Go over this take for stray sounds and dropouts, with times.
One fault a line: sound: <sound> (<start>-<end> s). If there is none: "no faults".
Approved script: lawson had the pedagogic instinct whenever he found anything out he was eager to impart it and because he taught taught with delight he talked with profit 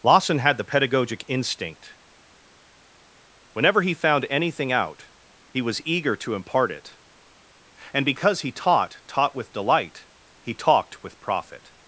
no faults